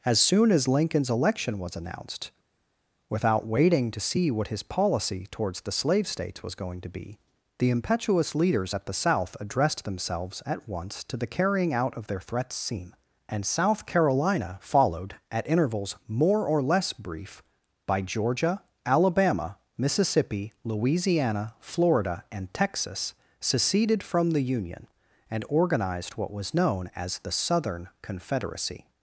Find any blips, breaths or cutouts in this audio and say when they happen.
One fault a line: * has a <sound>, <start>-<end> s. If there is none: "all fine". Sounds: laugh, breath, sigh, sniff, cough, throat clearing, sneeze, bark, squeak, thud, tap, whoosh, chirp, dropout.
all fine